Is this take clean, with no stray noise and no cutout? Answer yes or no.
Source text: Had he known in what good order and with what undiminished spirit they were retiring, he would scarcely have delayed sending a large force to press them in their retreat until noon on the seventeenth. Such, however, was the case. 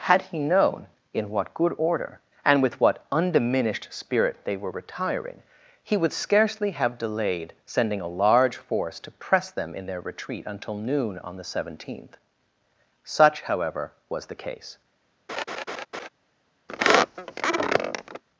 no